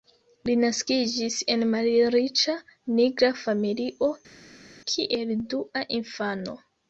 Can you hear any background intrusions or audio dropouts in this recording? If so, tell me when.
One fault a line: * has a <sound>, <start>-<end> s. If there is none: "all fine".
all fine